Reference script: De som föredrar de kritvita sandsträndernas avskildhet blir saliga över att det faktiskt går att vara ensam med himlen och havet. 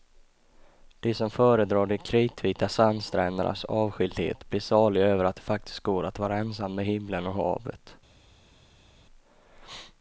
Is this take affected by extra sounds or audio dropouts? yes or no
no